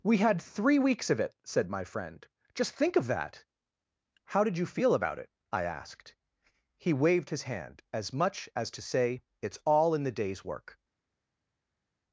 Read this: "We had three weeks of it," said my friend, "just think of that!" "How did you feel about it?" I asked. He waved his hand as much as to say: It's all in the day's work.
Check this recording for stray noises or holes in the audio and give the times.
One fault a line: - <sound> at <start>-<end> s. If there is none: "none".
none